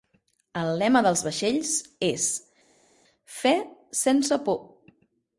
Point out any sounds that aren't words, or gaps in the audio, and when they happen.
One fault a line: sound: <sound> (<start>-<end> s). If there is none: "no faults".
no faults